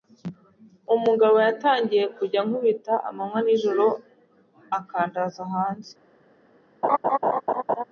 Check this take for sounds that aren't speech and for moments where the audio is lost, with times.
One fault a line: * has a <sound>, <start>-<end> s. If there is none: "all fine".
* has a laugh, 6.8-7.8 s